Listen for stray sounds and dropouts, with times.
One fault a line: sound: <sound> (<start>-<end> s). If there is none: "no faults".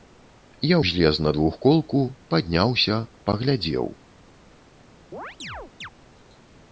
sound: chirp (5.1-5.9 s)